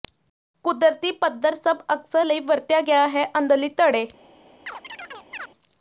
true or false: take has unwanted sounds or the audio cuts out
true